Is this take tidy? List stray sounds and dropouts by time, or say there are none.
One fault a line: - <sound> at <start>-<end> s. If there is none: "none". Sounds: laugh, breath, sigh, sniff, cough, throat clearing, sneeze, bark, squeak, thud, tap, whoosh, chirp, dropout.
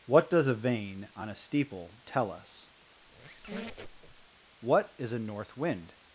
- squeak at 3.0-4.3 s